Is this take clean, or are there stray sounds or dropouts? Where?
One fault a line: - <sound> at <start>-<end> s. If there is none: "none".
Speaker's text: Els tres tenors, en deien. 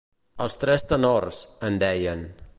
none